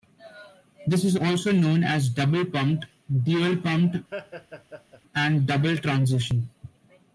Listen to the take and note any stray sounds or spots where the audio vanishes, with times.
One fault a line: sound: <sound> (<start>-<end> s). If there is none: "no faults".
sound: laugh (4.1-5.0 s)